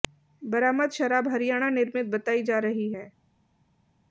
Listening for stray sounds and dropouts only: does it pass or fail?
pass